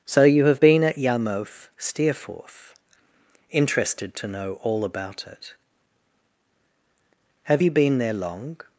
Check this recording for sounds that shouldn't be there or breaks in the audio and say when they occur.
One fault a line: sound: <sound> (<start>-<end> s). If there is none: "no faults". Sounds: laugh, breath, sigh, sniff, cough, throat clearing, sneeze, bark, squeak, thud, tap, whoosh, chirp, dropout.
no faults